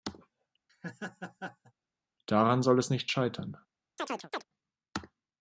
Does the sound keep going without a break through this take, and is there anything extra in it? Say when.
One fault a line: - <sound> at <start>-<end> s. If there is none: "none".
- laugh at 0.7-1.7 s
- chirp at 4.0-4.5 s